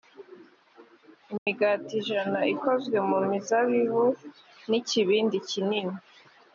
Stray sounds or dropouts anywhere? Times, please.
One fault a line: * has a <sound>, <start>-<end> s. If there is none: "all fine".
* has a dropout, 1.4-1.5 s